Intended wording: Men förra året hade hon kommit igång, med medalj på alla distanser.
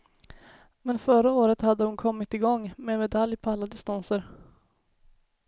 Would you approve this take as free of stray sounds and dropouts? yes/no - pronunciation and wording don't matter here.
yes